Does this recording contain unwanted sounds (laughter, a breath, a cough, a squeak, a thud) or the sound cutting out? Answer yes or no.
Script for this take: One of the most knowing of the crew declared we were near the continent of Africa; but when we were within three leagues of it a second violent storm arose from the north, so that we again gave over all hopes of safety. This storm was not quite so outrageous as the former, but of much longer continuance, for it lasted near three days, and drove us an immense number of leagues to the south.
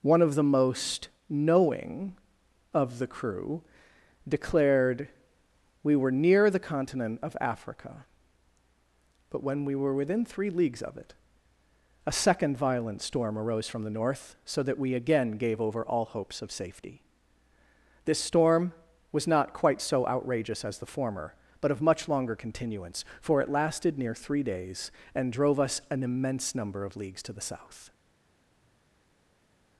no